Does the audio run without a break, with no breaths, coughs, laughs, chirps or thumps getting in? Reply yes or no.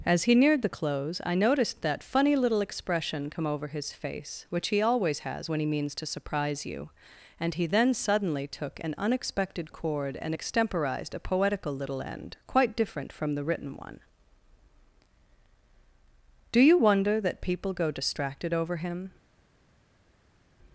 yes